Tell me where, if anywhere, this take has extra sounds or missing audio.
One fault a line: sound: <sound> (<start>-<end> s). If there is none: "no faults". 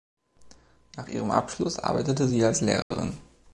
sound: dropout (2.8-2.9 s)